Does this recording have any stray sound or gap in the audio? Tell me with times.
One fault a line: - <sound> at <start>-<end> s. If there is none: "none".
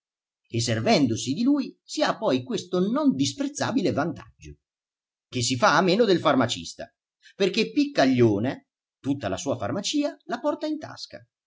none